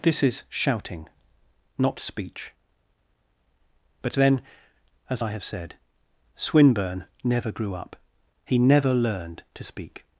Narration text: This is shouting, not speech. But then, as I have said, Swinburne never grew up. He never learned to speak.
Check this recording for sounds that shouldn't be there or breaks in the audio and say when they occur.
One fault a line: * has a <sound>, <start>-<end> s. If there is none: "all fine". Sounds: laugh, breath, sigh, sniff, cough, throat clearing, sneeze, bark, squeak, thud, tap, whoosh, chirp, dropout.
all fine